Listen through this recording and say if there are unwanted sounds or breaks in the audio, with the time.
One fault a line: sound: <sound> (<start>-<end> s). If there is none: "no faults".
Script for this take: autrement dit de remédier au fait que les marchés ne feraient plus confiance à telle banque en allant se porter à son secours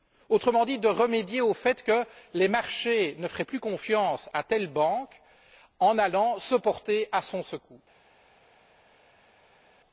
no faults